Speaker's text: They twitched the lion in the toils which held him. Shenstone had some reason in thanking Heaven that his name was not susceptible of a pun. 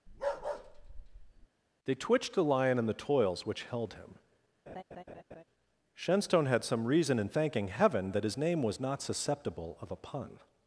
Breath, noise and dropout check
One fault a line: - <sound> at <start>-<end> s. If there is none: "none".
- bark at 0.1-1.5 s
- laugh at 4.7-5.4 s